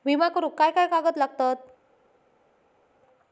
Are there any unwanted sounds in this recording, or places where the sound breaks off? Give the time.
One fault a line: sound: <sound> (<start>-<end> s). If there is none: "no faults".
no faults